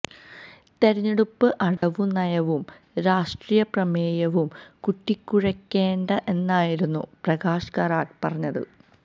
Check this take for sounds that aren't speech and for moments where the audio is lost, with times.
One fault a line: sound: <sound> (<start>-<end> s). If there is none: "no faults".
sound: dropout (1.8-1.8 s)